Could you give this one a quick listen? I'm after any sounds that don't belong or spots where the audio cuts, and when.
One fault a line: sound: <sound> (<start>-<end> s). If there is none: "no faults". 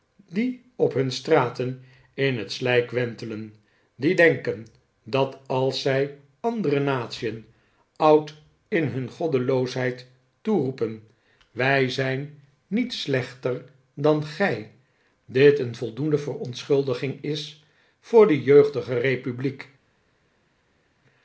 no faults